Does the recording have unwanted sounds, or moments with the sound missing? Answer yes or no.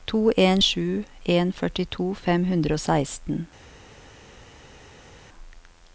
no